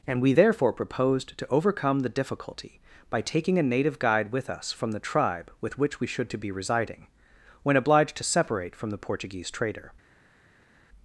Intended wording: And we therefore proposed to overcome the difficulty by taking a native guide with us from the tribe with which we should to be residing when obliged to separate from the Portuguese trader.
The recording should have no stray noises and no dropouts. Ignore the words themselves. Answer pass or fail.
pass